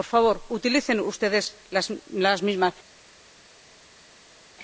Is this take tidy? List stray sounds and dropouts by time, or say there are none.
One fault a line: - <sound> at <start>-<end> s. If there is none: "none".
none